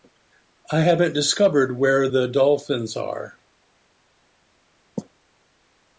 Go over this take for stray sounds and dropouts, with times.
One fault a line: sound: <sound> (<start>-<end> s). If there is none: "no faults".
no faults